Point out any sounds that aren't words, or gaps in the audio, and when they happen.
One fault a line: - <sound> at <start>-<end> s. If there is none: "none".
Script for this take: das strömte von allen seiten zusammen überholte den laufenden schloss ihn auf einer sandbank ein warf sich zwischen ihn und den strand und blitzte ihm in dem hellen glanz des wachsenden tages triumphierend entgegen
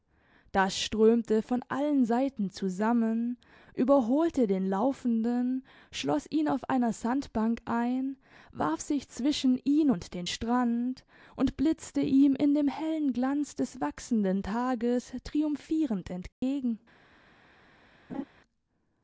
- dropout at 16.3-16.4 s
- laugh at 18.1-18.2 s